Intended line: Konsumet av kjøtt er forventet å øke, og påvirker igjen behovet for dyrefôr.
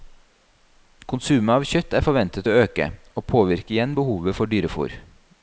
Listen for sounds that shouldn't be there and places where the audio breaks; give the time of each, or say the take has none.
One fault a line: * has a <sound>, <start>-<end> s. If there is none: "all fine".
all fine